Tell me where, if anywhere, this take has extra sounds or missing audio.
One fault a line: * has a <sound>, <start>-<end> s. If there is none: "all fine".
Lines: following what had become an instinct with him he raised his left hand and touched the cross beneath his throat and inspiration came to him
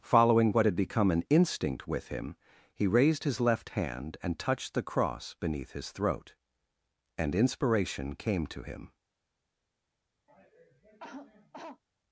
* has a cough, 10.3-11.8 s